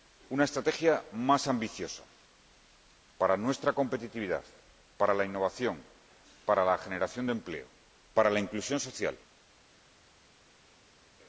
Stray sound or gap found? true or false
false